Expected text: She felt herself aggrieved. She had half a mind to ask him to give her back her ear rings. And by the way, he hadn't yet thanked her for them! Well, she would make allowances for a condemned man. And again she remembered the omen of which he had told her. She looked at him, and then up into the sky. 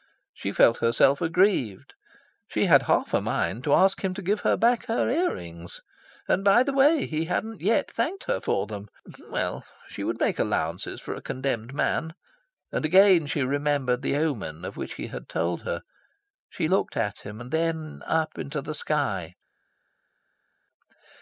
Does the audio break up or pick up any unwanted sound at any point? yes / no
no